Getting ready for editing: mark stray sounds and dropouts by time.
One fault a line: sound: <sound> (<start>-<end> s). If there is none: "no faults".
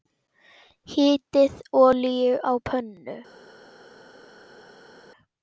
no faults